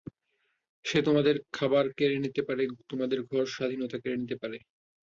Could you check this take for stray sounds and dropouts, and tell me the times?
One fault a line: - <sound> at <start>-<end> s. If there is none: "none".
none